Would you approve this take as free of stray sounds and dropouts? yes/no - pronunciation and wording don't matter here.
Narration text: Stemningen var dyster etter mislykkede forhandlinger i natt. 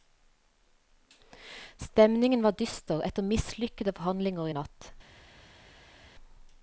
yes